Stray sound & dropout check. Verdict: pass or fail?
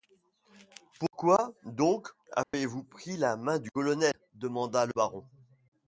fail